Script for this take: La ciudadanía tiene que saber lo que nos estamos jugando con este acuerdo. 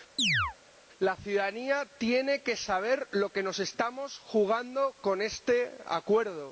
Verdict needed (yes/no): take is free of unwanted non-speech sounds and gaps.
no